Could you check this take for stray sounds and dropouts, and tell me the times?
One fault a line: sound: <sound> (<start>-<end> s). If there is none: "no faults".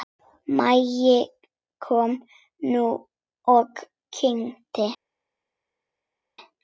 no faults